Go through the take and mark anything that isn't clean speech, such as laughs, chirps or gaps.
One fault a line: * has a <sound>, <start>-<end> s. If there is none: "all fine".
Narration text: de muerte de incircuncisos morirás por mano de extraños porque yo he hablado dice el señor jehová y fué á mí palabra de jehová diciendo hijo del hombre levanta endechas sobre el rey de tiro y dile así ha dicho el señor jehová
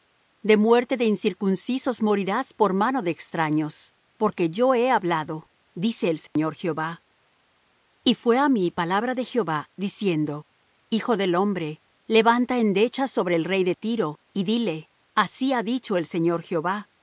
* has a dropout, 6.3-6.4 s